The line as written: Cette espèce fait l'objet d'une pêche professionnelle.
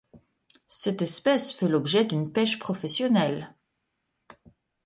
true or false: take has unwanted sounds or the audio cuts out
false